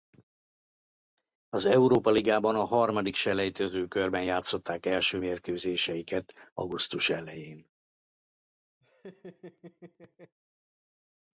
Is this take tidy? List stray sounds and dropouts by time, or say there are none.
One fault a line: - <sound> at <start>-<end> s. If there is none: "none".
- laugh at 8.8-10.4 s